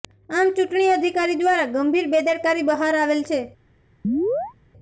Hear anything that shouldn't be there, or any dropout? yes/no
yes